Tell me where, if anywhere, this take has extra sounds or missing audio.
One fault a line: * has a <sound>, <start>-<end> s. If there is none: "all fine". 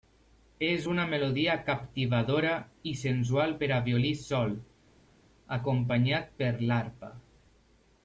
all fine